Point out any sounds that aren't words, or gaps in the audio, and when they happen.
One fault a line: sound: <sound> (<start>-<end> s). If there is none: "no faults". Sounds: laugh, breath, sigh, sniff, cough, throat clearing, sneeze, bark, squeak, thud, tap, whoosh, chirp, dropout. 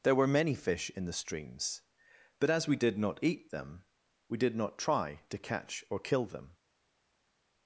no faults